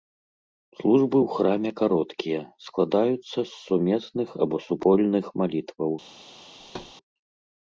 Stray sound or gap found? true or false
true